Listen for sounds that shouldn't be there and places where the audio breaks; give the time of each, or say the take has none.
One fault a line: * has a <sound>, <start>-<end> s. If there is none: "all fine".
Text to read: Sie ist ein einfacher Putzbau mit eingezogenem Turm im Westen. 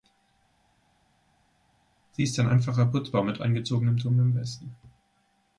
all fine